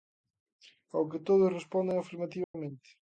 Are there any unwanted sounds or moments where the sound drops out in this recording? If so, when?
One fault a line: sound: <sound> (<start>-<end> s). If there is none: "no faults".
sound: dropout (2.4-2.5 s)